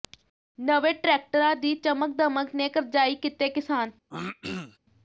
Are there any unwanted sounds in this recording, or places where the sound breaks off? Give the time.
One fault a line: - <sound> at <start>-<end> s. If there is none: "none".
- throat clearing at 4.1-4.8 s